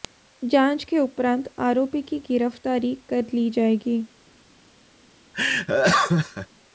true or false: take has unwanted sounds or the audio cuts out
true